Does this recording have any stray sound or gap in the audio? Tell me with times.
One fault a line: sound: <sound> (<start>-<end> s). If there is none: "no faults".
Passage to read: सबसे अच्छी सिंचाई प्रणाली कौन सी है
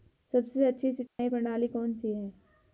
sound: dropout (1.1-1.2 s)